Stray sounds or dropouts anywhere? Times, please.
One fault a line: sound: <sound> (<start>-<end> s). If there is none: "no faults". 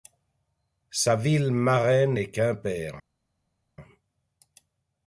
no faults